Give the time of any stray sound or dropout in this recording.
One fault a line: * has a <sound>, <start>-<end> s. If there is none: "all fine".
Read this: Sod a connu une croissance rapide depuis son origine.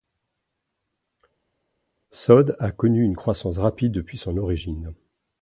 all fine